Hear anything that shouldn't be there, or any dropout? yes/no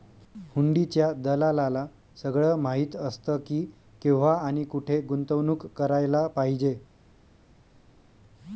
no